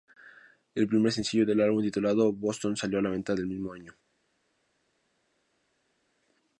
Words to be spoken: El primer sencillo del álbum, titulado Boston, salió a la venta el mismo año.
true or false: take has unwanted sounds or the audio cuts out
false